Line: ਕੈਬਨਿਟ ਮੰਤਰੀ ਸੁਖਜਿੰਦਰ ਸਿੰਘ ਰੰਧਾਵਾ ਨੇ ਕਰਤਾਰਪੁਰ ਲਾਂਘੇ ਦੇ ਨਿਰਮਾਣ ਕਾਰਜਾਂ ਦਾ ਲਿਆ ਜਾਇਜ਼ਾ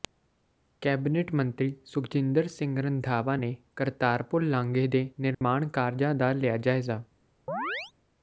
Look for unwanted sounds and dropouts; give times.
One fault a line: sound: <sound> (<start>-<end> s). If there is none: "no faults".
sound: dropout (5.3-5.4 s)
sound: chirp (7.5-7.9 s)